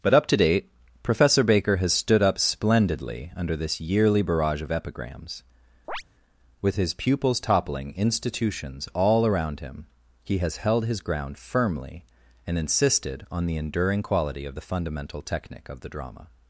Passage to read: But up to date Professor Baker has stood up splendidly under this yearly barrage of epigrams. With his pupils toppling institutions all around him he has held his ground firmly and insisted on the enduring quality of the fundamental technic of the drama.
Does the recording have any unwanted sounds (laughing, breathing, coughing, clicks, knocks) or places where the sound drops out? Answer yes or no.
yes